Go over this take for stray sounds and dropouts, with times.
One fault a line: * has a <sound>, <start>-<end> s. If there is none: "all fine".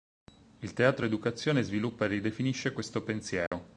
* has a dropout, 3.5-3.5 s